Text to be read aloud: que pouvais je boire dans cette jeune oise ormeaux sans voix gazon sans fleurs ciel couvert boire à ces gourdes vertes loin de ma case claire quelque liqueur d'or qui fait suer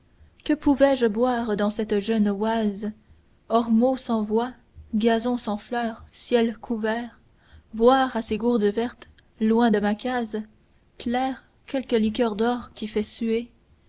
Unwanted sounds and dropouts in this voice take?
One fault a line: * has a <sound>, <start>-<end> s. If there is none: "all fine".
all fine